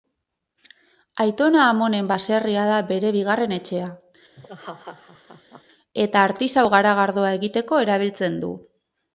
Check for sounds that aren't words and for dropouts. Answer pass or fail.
fail